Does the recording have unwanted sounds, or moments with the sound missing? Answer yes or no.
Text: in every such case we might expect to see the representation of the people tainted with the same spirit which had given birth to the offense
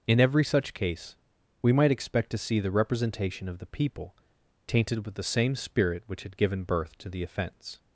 no